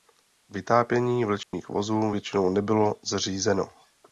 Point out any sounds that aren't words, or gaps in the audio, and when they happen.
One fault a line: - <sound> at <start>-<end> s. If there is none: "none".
- dropout at 1.4-1.5 s